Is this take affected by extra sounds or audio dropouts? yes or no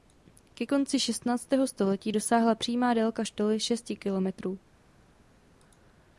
no